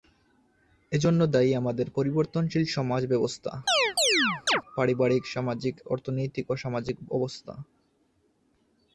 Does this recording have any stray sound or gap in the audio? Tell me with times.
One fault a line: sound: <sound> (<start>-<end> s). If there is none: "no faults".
sound: chirp (3.7-4.6 s)